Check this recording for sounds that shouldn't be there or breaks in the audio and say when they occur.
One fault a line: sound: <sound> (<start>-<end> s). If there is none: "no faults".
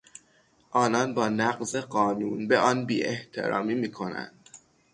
no faults